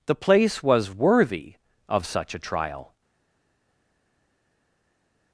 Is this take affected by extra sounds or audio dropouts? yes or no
no